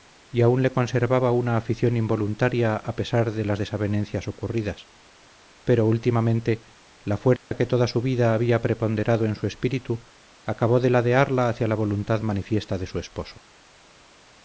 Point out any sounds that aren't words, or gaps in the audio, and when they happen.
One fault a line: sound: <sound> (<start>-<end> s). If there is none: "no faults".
sound: dropout (7.4-7.5 s)